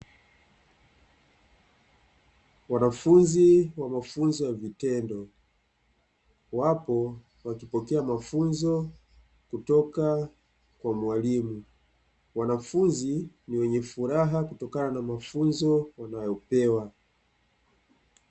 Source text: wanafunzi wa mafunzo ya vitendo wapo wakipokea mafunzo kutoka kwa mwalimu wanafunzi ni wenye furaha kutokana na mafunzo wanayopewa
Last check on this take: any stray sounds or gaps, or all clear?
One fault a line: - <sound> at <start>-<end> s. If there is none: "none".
none